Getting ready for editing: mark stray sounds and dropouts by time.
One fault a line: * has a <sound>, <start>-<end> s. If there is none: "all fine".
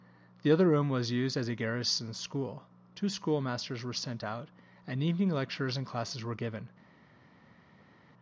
all fine